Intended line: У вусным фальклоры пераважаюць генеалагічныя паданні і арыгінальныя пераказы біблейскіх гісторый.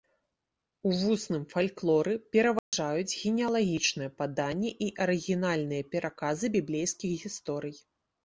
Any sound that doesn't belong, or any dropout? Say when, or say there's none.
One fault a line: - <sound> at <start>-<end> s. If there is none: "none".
- dropout at 2.6-2.7 s